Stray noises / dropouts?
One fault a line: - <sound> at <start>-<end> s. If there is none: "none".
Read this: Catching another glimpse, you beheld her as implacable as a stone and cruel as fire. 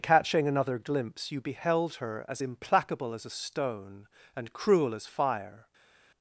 none